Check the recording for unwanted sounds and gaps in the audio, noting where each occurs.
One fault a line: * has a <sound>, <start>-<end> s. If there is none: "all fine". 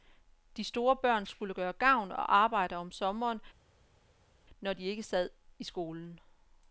all fine